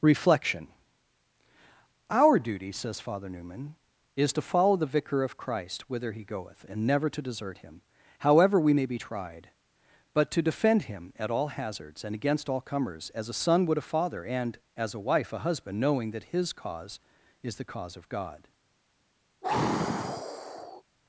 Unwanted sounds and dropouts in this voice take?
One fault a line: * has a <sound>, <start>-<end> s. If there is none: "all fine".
* has a sigh, 19.4-20.8 s